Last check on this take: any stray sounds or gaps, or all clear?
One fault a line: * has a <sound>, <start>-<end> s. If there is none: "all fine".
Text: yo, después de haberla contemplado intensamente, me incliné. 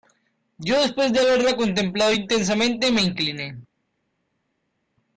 all fine